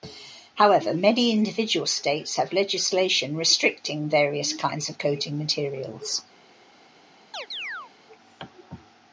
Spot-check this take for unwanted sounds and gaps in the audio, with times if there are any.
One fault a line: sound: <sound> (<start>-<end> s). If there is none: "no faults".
sound: chirp (7.3-7.9 s)